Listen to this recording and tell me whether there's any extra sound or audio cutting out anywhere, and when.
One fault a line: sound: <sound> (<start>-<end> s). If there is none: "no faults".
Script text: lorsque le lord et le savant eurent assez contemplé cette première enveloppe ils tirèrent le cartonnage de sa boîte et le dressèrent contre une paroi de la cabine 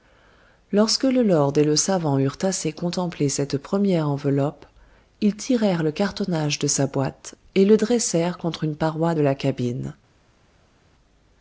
no faults